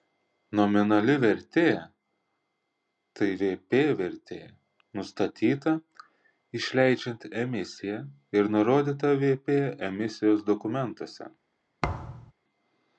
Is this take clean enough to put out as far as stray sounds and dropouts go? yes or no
no